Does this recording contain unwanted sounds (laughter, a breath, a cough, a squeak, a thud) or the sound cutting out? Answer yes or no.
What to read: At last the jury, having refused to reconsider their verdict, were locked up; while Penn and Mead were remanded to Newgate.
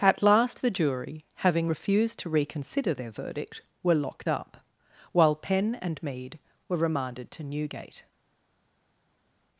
no